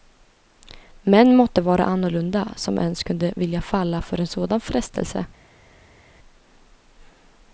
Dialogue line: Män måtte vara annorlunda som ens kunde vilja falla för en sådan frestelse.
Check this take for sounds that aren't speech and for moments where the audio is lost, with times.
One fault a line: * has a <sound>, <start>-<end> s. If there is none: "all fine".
all fine